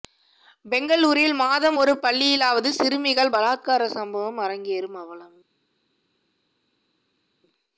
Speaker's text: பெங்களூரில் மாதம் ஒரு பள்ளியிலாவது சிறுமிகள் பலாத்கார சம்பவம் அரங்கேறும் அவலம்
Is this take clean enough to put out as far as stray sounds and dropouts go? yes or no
yes